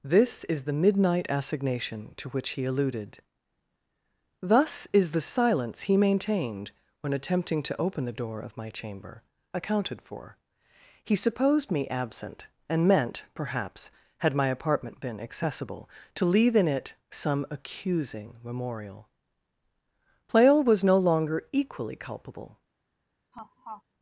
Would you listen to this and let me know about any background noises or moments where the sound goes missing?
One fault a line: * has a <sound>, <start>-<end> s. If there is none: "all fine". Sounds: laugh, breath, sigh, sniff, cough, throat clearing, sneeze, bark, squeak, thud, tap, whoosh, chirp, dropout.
* has a laugh, 23.3-23.8 s